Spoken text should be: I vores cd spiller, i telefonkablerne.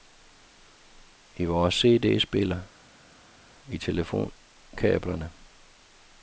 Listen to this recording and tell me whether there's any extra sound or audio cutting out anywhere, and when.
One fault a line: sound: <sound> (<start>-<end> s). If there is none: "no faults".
no faults